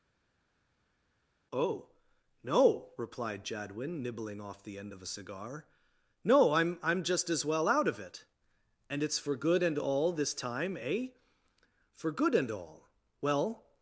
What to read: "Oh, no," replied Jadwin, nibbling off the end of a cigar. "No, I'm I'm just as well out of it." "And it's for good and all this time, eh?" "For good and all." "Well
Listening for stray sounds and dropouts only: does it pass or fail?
pass